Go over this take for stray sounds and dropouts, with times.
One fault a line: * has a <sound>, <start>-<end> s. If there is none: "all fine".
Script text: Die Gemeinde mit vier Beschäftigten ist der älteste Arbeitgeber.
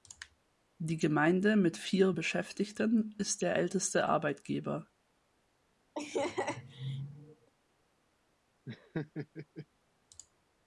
* has a laugh, 5.9-7.5 s
* has a laugh, 8.7-9.7 s